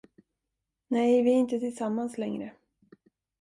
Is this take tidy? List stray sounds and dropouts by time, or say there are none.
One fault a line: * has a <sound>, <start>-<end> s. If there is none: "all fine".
all fine